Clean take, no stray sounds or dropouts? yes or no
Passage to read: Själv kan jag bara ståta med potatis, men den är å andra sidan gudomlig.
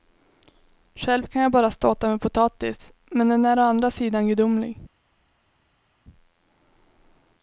yes